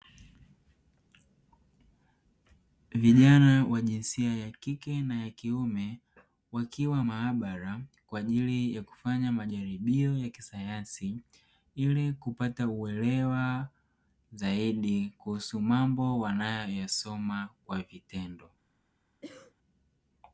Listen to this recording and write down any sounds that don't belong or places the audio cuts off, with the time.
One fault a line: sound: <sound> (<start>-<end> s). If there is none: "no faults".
sound: cough (19.2-19.5 s)